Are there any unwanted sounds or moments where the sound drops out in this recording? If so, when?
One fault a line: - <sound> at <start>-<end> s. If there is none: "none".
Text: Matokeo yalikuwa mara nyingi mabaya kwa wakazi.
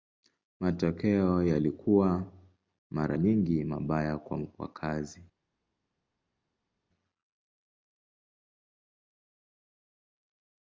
none